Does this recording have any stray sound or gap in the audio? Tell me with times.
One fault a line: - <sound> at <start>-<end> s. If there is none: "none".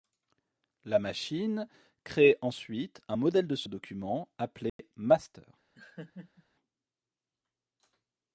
- dropout at 4.7-4.8 s
- laugh at 5.8-6.4 s